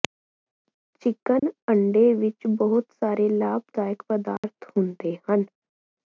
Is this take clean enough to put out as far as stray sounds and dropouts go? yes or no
no